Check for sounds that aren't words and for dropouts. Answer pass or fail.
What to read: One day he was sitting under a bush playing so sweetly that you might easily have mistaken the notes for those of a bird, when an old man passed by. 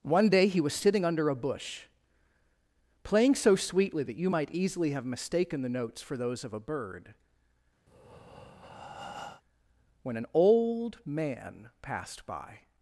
fail